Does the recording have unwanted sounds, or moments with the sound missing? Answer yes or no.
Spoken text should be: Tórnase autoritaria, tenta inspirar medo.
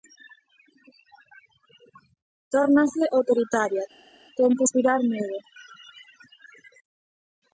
no